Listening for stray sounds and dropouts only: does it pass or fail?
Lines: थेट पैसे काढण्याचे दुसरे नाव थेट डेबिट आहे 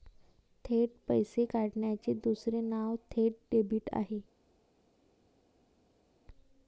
pass